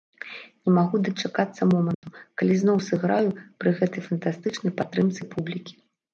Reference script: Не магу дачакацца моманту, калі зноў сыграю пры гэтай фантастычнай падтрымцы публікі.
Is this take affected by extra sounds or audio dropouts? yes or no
yes